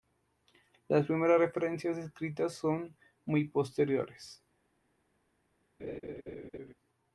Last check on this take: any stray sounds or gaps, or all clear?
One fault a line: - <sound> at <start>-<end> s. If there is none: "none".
- laugh at 5.8-6.7 s